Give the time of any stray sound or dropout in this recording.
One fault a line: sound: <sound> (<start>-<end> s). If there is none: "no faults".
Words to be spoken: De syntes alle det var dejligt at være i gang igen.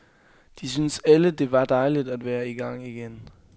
no faults